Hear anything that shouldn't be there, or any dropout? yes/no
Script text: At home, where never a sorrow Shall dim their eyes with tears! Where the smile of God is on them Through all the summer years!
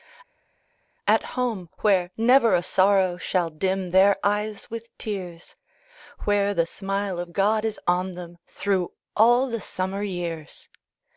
no